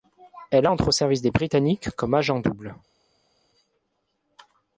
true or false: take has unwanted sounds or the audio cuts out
false